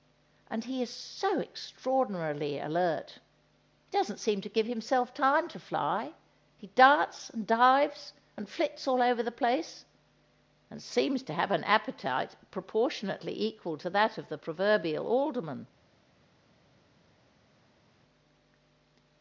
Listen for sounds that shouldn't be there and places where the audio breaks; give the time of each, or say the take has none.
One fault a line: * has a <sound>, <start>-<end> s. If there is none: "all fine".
all fine